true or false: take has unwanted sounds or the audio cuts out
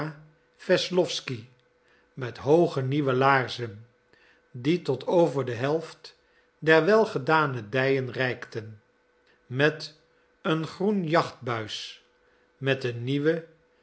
false